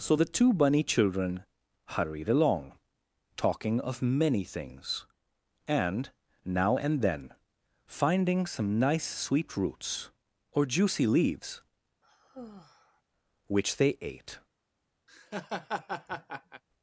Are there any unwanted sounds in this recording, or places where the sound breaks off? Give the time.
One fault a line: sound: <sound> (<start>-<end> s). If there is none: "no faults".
sound: sigh (12.0-13.0 s)
sound: laugh (15.1-16.6 s)